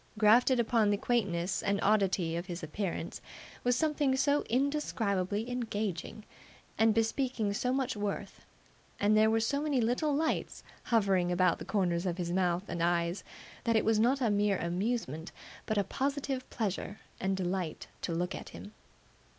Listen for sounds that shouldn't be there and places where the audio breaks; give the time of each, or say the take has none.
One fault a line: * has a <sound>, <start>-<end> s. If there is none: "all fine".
all fine